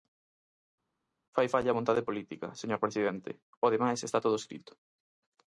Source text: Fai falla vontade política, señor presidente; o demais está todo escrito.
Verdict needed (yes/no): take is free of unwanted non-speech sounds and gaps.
yes